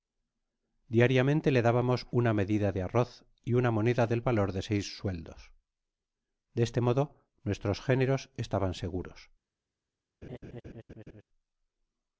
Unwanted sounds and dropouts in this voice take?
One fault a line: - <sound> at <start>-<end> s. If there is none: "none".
- laugh at 10.2-11.2 s